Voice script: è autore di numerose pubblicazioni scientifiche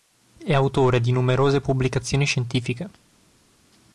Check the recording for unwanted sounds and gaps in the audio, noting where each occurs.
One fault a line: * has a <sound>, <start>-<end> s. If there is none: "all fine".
all fine